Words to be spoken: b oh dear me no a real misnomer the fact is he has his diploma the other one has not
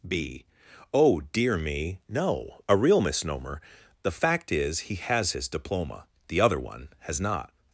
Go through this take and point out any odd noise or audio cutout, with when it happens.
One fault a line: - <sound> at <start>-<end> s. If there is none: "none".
none